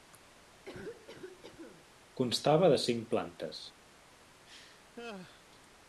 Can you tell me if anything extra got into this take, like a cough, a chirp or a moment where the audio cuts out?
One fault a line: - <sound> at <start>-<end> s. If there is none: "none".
- cough at 0.7-1.9 s
- laugh at 4.5-5.5 s